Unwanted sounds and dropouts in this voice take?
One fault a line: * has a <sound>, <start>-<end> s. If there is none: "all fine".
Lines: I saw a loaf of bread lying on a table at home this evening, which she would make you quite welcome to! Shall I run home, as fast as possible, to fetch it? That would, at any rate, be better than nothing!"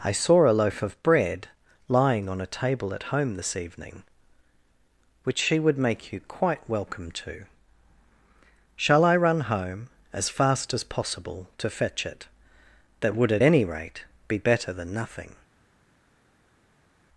all fine